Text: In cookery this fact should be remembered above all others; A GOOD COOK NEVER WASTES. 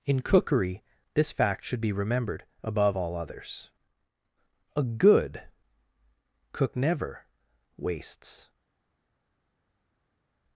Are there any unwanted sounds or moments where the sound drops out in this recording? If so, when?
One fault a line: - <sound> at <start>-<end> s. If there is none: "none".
none